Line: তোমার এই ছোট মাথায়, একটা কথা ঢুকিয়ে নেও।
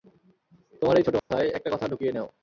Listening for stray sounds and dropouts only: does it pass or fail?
fail